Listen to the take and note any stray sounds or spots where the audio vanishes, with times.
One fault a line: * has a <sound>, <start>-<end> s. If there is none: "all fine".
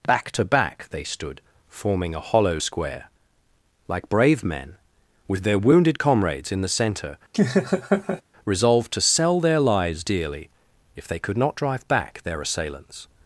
* has a laugh, 7.3-8.2 s